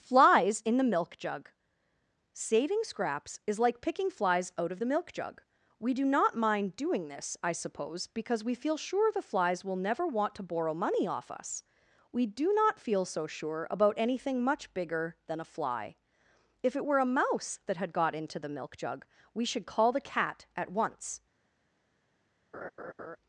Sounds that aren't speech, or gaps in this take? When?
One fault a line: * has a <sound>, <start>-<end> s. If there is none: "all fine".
* has a laugh, 22.5-23.2 s